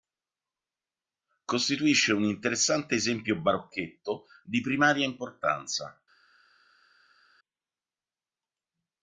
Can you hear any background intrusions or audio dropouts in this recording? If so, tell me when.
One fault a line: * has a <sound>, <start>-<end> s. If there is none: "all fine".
all fine